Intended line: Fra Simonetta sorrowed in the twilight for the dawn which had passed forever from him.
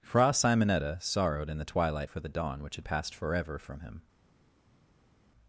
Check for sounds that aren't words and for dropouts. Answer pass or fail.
pass